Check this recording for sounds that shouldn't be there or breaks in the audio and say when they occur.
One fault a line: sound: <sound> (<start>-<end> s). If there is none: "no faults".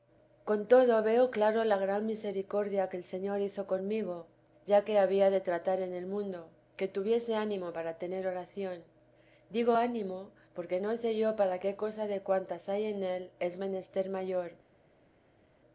no faults